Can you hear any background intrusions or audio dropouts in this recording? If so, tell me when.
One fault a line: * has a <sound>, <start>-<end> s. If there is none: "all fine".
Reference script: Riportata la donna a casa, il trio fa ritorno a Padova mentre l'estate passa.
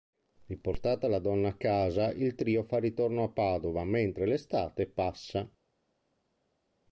all fine